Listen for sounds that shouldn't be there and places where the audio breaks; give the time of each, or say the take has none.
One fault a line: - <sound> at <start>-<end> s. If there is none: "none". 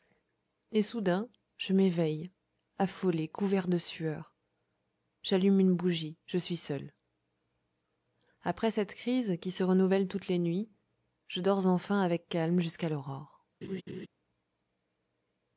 - laugh at 13.6-14.1 s